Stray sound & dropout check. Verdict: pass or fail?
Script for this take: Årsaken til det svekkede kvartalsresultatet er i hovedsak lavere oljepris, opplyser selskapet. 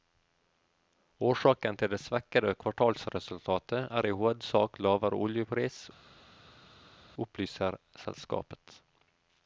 pass